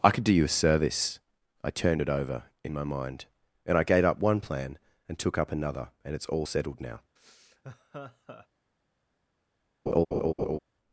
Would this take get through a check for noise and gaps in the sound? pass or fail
fail